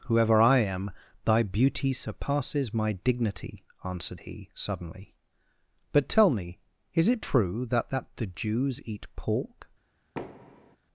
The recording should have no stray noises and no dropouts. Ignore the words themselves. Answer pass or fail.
fail